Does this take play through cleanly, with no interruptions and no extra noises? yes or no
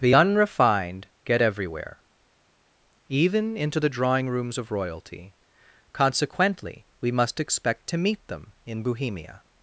yes